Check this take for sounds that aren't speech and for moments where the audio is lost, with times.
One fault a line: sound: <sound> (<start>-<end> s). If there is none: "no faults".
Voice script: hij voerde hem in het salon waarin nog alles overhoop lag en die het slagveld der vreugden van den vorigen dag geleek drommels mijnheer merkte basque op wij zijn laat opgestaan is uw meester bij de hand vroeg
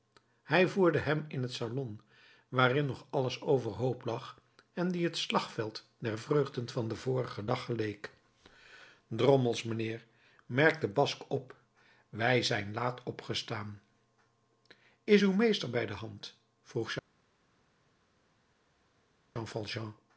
no faults